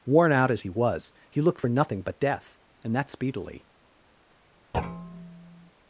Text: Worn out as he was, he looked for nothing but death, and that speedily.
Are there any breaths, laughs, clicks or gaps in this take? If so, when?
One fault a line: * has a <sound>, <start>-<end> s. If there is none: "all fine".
* has a thud, 4.7-5.7 s